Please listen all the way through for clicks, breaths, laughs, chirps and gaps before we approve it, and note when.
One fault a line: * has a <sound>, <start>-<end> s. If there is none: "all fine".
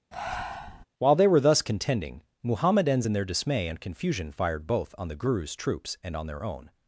* has a breath, 0.1-0.9 s